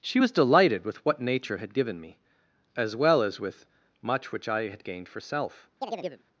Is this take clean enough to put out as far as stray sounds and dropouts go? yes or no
no